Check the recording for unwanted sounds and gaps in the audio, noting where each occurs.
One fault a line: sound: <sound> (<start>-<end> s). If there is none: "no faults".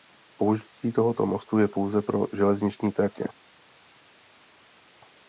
no faults